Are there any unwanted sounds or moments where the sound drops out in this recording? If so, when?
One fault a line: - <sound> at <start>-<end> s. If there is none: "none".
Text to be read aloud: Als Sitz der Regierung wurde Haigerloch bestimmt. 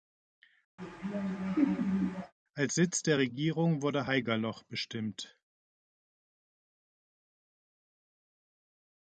- laugh at 0.8-2.3 s